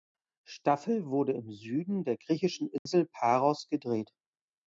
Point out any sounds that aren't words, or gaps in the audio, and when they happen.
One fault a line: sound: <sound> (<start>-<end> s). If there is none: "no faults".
sound: dropout (2.8-2.9 s)